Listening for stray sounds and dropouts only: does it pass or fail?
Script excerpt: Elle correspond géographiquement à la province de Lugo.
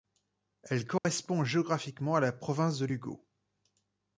fail